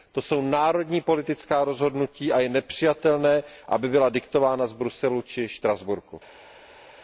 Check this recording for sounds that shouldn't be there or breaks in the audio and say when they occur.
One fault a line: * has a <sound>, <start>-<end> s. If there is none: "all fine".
all fine